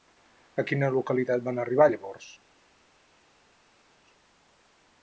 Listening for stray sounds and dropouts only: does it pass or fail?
pass